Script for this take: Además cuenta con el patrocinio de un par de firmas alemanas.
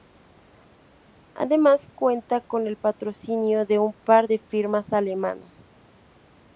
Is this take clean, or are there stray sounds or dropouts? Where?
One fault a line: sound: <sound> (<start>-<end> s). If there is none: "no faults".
no faults